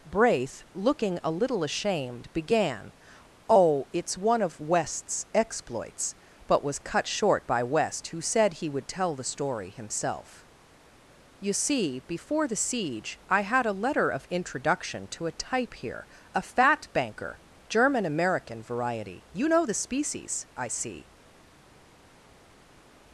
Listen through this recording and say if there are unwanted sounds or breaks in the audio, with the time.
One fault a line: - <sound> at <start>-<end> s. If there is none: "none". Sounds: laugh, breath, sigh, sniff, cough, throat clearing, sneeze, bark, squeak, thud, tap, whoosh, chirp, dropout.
none